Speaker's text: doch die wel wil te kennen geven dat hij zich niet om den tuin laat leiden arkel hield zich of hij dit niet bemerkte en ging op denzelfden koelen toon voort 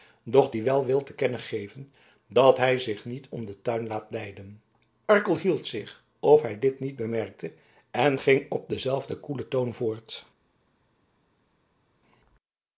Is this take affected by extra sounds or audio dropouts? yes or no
no